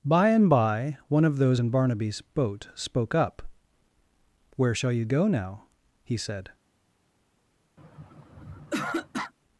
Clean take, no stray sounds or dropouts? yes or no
no